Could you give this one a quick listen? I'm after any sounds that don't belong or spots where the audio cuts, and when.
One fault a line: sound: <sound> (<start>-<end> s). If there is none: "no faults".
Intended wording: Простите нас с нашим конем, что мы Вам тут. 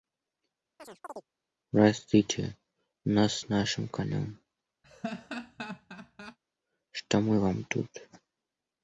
sound: chirp (0.8-1.3 s)
sound: laugh (4.8-6.4 s)